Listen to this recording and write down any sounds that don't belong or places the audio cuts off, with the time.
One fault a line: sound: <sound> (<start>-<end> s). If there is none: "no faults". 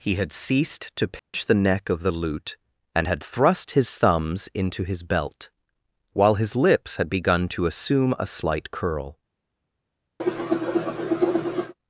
sound: dropout (1.2-1.3 s)
sound: cough (10.2-11.7 s)